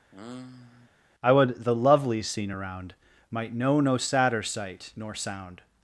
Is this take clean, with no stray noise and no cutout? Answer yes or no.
no